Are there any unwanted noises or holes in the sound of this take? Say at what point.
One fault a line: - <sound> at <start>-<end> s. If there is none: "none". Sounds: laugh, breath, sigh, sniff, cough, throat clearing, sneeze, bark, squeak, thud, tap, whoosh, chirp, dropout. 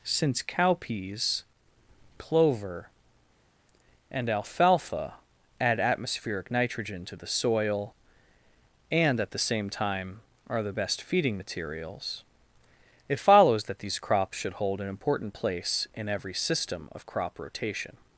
none